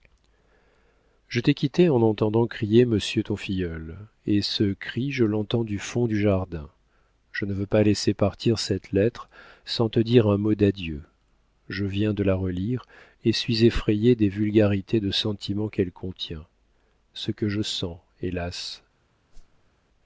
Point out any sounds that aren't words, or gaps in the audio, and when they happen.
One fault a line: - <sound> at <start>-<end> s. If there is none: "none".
- whoosh at 19.3-19.7 s